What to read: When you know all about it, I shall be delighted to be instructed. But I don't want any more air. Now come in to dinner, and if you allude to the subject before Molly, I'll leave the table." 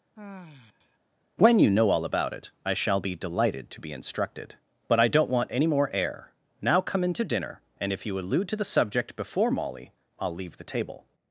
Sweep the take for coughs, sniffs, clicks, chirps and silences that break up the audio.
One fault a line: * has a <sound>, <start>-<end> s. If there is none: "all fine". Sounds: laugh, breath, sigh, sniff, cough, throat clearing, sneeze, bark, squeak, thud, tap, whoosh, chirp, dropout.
* has a sigh, 0.2-1.0 s